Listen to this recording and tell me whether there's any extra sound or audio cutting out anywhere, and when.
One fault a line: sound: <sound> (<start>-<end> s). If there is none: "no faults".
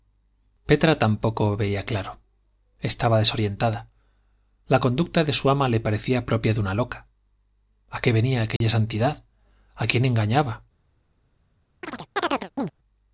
sound: dropout (8.6-8.6 s)
sound: chirp (11.8-12.7 s)